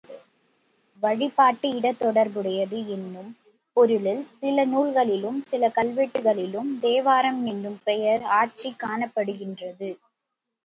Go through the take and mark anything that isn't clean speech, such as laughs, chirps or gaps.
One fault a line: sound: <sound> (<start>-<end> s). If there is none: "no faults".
no faults